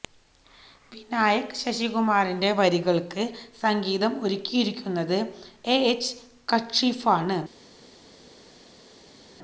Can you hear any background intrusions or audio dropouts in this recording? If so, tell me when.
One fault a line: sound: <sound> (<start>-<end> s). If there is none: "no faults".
no faults